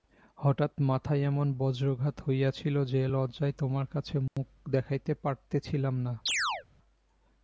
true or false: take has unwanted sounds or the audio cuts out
true